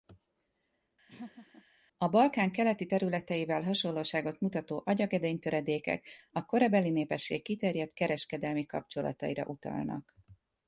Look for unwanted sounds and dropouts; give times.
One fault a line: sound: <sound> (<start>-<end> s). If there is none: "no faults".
sound: laugh (1.1-1.6 s)